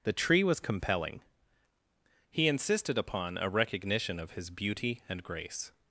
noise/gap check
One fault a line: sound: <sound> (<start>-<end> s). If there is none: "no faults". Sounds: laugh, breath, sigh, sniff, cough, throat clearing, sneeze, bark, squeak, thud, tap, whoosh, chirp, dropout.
no faults